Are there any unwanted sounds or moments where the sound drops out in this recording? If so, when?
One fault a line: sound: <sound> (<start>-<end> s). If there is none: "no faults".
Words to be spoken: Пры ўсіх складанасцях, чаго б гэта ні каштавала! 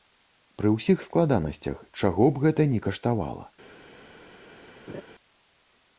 sound: laugh (4.9-5.0 s)